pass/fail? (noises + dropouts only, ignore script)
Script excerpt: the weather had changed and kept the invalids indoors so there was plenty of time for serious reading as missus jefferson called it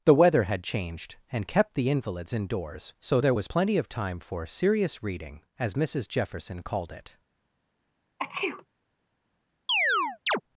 fail